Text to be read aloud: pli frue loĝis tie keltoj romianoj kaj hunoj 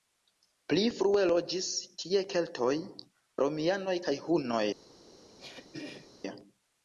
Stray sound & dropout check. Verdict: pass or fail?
fail